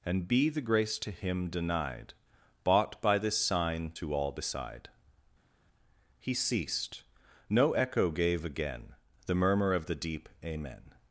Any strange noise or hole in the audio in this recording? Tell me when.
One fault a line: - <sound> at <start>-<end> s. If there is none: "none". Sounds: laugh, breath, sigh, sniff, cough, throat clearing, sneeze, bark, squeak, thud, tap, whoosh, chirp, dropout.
none